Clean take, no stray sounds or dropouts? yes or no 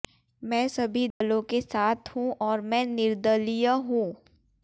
no